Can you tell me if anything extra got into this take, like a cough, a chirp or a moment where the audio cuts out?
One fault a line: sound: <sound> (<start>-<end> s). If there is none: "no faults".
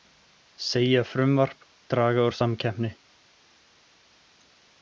no faults